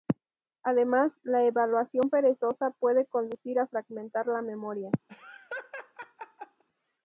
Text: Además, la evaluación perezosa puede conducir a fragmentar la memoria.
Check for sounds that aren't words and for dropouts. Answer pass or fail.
fail